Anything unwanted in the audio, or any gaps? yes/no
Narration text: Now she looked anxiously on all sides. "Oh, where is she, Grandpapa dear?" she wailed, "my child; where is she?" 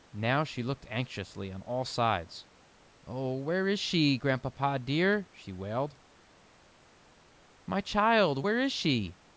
no